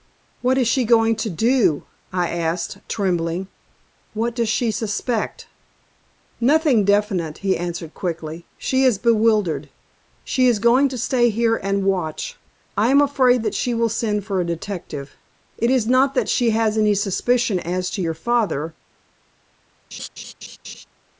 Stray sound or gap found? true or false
true